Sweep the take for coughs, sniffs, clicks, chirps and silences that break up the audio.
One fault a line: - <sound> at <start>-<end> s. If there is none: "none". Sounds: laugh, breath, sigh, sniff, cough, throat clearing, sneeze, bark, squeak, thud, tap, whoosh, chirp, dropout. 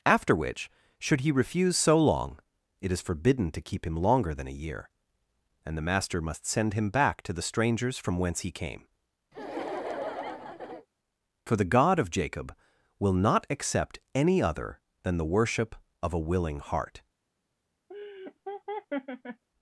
- laugh at 9.3-10.9 s
- laugh at 17.9-19.4 s